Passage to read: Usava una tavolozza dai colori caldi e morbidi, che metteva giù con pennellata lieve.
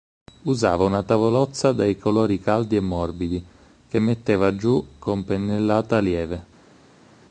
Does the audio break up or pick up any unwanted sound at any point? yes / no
no